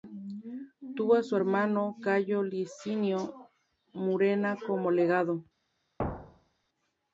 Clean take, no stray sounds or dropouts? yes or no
no